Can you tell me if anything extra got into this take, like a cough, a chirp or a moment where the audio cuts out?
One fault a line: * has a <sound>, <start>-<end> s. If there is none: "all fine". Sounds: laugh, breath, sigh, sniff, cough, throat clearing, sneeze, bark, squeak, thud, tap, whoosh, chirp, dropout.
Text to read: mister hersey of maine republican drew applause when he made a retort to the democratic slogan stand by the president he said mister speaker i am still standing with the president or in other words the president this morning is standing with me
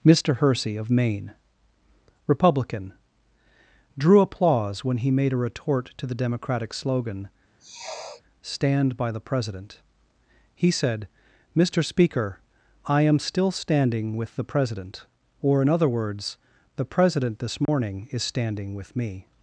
* has a sniff, 7.6-8.2 s
* has a dropout, 17.7-17.7 s